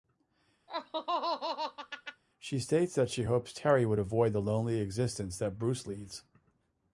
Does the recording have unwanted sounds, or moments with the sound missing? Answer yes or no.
yes